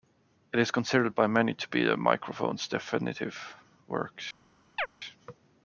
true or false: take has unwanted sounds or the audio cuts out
true